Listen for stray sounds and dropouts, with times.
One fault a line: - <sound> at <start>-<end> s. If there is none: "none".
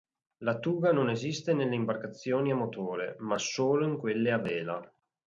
none